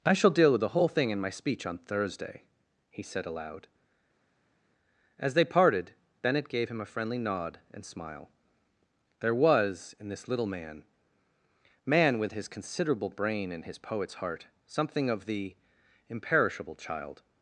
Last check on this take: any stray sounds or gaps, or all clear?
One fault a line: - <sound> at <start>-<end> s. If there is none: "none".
none